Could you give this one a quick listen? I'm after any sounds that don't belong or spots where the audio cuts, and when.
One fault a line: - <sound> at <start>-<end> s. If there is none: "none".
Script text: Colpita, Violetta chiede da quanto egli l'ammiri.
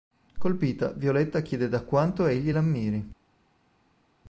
none